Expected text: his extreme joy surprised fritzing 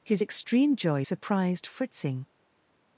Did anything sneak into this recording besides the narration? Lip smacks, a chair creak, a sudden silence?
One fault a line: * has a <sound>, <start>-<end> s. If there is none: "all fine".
all fine